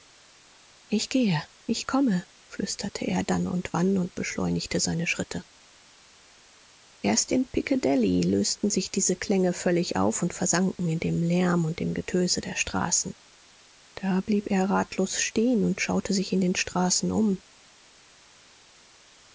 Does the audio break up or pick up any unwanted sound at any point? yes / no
no